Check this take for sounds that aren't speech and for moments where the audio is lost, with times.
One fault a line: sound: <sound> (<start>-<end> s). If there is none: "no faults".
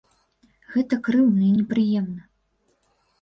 no faults